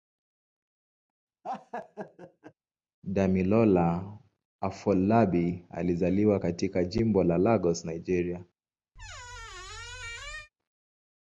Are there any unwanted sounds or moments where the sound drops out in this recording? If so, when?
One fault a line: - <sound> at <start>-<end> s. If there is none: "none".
- laugh at 1.4-2.5 s
- squeak at 8.9-10.5 s